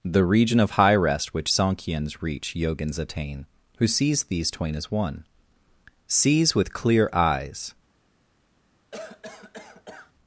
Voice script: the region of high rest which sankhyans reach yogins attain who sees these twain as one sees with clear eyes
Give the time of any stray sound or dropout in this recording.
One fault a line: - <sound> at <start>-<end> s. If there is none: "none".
- cough at 8.9-10.1 s